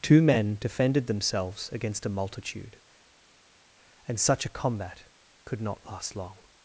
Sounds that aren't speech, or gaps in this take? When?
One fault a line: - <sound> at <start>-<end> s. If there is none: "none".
none